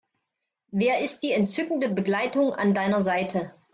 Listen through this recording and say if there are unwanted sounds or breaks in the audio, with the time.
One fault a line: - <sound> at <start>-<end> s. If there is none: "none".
none